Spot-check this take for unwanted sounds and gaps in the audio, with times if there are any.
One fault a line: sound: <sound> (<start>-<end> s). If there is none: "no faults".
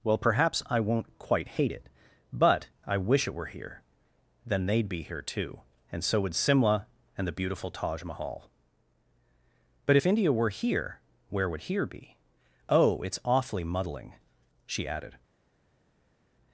no faults